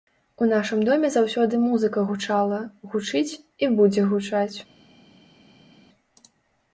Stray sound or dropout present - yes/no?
no